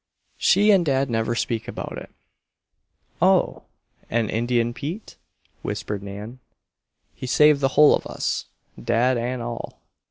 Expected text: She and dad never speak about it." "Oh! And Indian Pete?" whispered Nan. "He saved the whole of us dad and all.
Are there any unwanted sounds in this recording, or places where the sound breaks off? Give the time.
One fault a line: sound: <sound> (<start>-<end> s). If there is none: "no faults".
no faults